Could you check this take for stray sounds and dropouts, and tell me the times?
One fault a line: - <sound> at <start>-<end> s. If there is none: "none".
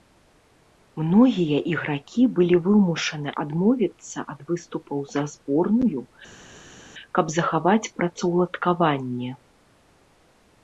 none